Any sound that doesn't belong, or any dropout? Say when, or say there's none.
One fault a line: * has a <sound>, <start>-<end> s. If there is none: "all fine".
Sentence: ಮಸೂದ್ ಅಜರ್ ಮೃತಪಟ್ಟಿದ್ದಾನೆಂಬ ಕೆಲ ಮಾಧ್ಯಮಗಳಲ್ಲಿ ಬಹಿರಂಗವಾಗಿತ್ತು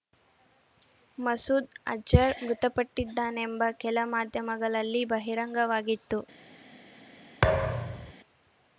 * has a thud, 7.4-8.1 s